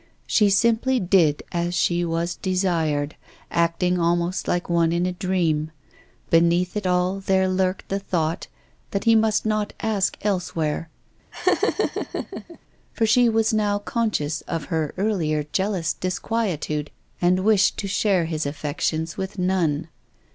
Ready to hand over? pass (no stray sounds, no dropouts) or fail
fail